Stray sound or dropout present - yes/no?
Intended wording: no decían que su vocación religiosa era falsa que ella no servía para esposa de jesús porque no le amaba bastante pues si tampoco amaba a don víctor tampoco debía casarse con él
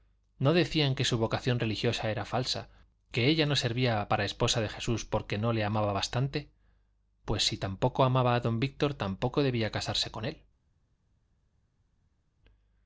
no